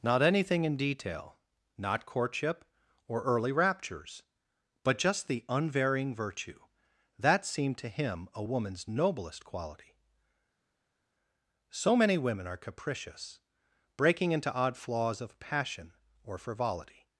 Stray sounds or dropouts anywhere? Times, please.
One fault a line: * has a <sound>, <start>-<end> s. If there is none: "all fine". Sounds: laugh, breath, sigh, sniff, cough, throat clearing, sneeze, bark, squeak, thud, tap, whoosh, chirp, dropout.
all fine